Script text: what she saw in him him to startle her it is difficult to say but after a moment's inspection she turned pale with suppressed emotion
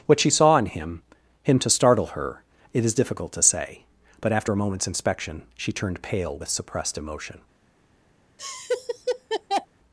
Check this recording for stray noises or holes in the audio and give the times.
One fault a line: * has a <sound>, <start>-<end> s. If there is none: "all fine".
* has a laugh, 8.4-9.7 s